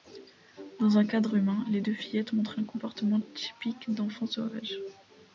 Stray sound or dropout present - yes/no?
no